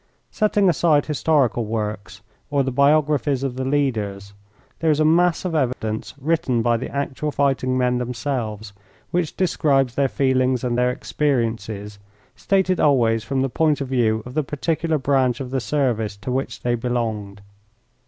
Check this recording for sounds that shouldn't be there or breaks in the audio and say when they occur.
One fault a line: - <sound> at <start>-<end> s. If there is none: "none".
- dropout at 5.7-5.8 s